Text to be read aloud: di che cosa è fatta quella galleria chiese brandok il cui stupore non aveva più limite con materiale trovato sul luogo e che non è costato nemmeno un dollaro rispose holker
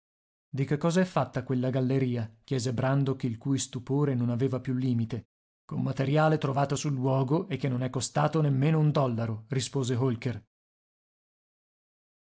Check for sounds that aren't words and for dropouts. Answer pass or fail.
pass